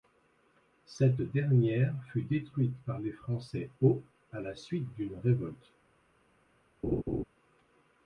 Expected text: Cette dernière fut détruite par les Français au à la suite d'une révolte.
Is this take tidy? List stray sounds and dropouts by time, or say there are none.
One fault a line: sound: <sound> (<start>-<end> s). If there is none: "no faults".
sound: laugh (6.8-7.2 s)